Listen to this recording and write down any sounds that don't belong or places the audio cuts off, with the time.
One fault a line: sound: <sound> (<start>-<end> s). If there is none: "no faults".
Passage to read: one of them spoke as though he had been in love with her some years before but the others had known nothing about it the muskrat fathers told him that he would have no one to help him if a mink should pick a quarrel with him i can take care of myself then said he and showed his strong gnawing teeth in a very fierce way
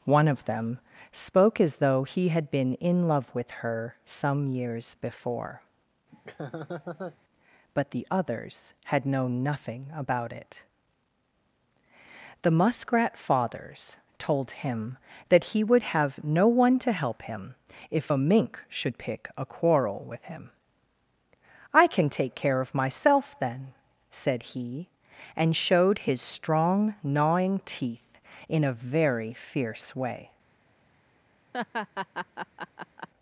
sound: laugh (6.1-7.2 s)
sound: laugh (31.5-33.1 s)